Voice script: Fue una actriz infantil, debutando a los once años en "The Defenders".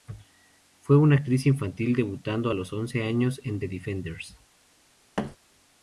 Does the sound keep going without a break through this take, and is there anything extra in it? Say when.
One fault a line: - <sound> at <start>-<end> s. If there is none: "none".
- thud at 5.2-5.4 s